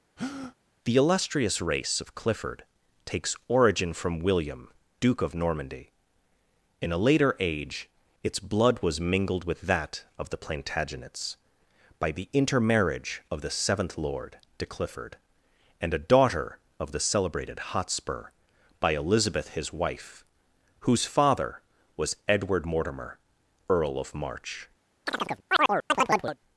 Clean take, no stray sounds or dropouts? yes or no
no